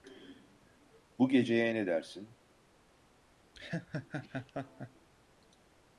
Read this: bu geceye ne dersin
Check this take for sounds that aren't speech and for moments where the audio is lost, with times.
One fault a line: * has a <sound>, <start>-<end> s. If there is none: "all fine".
* has a laugh, 3.5-5.1 s